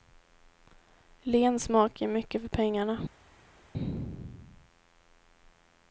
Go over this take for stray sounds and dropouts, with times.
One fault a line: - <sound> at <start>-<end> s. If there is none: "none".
none